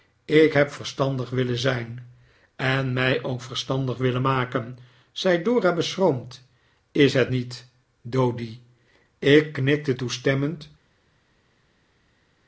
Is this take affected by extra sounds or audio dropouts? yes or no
no